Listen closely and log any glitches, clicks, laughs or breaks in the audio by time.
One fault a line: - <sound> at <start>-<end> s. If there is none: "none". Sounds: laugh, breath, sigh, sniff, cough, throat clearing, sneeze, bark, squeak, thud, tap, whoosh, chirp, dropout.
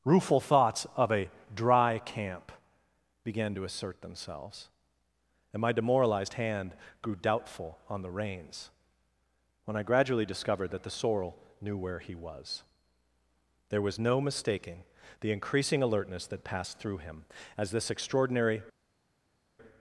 none